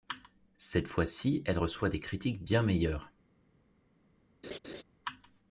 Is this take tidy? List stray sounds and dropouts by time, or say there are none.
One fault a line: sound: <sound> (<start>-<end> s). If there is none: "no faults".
sound: laugh (4.4-4.8 s)